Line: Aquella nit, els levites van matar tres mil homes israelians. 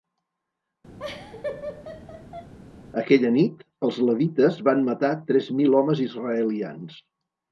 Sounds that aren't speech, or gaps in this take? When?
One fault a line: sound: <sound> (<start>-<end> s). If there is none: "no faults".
sound: laugh (1.0-2.5 s)